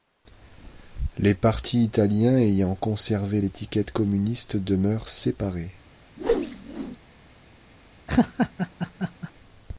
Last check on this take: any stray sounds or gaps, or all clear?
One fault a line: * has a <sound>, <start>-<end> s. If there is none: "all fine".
* has a whoosh, 6.2-7.0 s
* has a laugh, 8.1-9.3 s